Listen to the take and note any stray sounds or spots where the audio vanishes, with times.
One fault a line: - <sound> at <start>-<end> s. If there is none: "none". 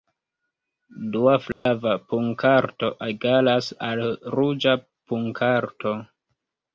- dropout at 1.5-1.7 s